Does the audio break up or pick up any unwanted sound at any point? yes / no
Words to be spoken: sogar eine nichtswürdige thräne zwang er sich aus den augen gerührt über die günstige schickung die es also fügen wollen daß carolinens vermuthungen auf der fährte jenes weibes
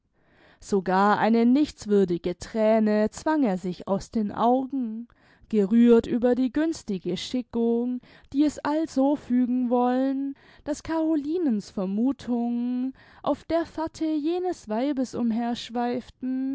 no